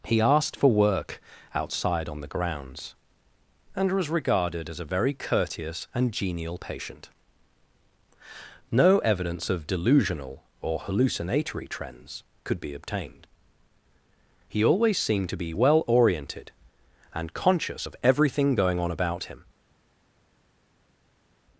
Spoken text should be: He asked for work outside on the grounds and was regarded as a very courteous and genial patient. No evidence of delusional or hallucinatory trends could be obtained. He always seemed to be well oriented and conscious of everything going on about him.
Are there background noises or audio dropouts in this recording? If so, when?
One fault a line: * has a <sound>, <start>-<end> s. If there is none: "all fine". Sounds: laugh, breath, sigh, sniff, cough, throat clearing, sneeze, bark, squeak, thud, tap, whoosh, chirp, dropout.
all fine